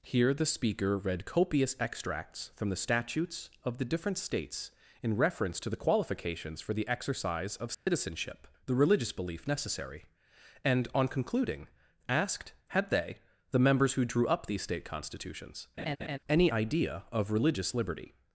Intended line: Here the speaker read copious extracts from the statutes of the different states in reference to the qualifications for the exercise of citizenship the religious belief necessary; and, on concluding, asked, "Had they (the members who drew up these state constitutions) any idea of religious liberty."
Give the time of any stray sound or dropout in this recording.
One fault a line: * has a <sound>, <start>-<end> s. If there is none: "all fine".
* has a dropout, 7.7-7.9 s
* has a laugh, 15.8-16.2 s